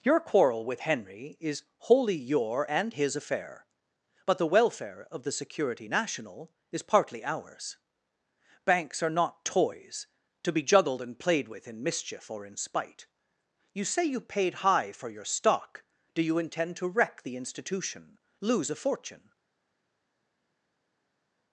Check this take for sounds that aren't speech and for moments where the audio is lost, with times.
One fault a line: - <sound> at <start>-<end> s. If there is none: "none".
none